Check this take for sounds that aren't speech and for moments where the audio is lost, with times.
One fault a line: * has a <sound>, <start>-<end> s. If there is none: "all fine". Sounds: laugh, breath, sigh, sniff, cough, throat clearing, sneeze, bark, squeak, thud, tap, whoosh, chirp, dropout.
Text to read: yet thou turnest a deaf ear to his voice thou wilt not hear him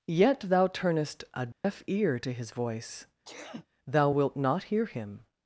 * has a dropout, 1.5-1.6 s
* has a sneeze, 3.2-3.7 s